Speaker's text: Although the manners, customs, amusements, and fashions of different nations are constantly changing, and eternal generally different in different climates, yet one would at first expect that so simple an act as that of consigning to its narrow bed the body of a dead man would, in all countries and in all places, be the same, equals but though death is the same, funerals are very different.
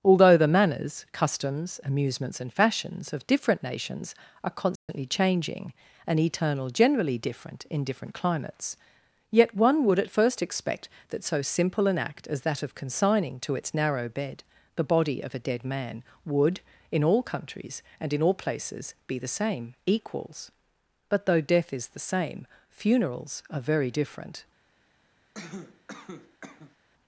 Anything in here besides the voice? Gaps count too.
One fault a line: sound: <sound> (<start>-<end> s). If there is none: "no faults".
sound: dropout (4.8-4.9 s)
sound: cough (25.3-26.8 s)